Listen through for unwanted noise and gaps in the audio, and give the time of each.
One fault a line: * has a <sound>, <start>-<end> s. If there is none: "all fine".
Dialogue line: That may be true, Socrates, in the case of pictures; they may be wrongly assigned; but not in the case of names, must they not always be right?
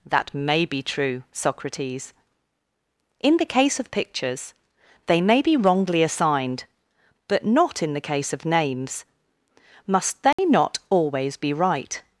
* has a dropout, 10.3-10.4 s